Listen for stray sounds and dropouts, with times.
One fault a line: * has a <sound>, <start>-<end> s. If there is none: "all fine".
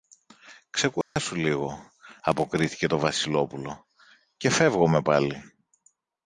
* has a dropout, 1.0-1.2 s